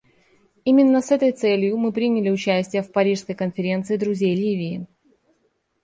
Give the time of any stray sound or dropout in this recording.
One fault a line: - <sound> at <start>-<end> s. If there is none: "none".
none